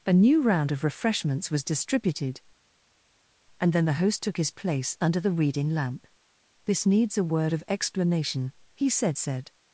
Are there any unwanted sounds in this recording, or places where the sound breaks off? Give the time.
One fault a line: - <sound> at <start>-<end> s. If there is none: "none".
none